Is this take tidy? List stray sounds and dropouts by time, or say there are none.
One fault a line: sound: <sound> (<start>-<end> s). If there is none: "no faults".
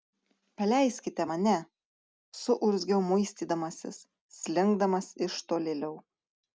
no faults